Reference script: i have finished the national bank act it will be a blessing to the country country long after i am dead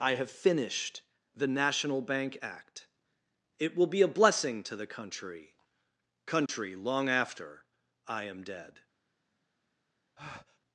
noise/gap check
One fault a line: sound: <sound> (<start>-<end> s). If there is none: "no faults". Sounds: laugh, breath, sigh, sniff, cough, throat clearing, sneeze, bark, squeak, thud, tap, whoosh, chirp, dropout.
sound: dropout (6.5-6.5 s)
sound: breath (10.2-10.6 s)